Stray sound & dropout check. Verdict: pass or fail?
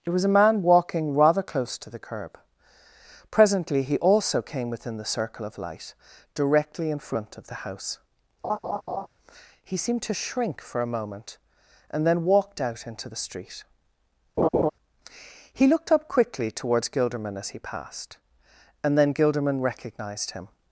fail